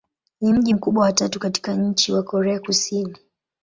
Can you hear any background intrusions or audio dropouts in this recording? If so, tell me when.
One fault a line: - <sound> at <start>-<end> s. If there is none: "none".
none